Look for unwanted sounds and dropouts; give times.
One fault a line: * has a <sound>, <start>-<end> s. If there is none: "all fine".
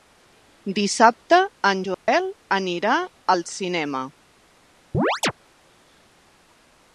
* has a dropout, 1.9-2.1 s
* has a chirp, 4.9-5.3 s